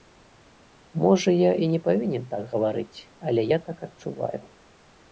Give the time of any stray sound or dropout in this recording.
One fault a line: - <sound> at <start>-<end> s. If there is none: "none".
none